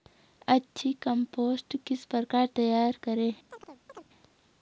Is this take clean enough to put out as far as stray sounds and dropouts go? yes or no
no